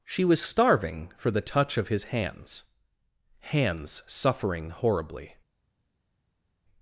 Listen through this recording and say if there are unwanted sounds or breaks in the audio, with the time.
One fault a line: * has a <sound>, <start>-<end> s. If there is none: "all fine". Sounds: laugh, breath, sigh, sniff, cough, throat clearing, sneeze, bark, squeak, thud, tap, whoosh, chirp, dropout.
all fine